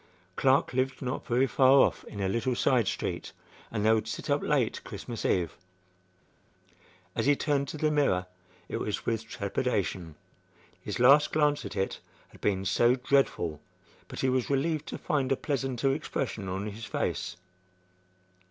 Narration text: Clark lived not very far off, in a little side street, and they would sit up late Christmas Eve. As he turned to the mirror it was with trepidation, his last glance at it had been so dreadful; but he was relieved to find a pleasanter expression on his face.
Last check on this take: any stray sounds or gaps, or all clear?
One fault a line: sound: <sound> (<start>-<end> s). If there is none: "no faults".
no faults